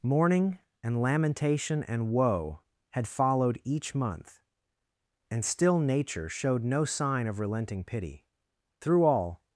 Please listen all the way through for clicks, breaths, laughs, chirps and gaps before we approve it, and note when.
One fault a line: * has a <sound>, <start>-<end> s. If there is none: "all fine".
all fine